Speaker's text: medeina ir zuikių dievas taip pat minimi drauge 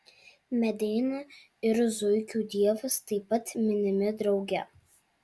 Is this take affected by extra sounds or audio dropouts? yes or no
no